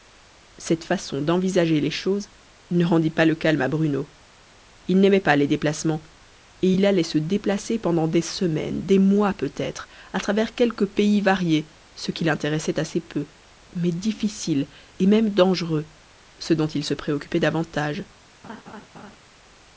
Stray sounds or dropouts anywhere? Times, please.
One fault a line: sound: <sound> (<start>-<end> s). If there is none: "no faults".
sound: laugh (18.4-19.2 s)